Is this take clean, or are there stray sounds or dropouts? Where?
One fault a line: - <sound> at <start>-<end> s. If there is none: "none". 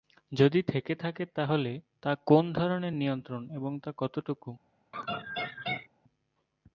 - laugh at 4.9-5.9 s